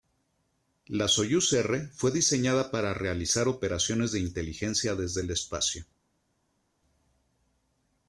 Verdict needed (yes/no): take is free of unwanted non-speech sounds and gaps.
yes